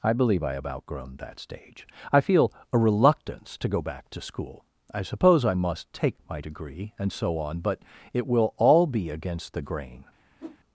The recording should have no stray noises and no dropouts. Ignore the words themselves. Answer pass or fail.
fail